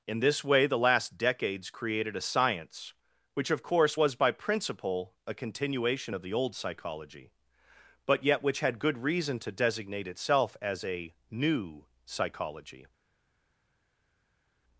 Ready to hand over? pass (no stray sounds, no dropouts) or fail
pass